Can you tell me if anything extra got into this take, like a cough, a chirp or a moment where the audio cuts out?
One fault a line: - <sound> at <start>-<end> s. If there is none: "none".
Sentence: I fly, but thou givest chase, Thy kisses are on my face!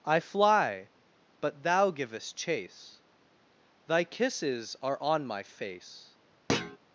- thud at 6.5-6.8 s